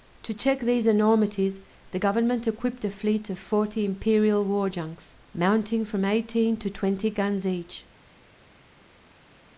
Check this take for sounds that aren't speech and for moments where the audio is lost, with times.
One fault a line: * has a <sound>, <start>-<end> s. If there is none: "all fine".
all fine